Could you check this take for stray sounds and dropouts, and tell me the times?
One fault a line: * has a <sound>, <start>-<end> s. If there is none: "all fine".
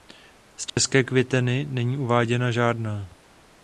* has a dropout, 0.7-0.8 s